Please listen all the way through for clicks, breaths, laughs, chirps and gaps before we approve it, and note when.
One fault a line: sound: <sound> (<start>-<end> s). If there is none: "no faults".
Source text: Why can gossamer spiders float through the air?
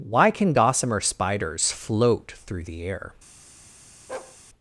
sound: bark (4.1-4.4 s)